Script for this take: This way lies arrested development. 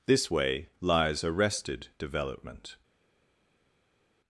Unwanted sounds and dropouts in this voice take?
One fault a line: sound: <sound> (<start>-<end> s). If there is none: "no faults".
no faults